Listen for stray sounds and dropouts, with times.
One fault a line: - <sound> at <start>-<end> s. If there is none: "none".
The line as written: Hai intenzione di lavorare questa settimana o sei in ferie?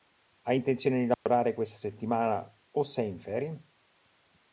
- dropout at 1.1-1.3 s